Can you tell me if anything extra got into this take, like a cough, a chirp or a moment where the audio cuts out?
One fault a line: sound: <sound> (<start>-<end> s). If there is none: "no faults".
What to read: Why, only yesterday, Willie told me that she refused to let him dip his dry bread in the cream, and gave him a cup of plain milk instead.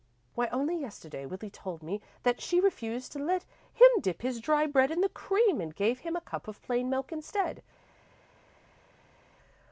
no faults